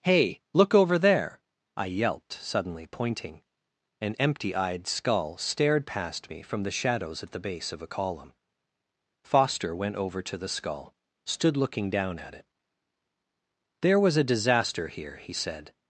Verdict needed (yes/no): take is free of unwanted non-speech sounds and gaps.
yes